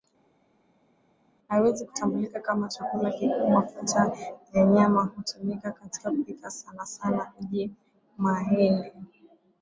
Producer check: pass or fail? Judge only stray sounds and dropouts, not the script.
pass